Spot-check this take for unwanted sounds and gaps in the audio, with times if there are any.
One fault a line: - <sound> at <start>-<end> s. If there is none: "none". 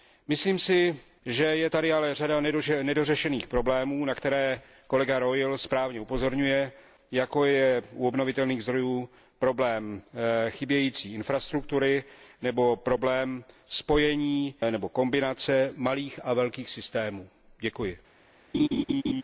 - laugh at 18.5-19.2 s